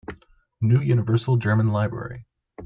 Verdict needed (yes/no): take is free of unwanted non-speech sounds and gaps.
yes